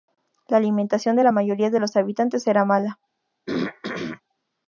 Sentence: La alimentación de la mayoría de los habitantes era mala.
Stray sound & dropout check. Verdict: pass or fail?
fail